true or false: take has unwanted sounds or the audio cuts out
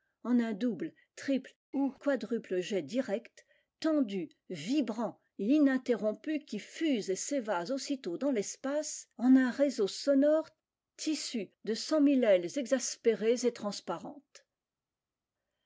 false